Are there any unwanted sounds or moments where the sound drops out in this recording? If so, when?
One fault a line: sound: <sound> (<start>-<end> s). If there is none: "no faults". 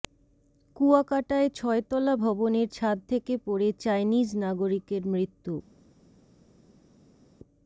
no faults